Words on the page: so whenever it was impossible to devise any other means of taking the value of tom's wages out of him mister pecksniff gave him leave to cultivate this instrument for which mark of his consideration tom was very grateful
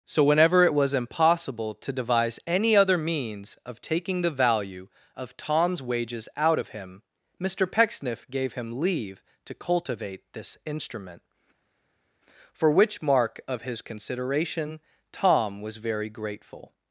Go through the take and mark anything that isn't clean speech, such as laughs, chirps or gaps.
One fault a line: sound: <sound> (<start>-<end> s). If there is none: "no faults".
no faults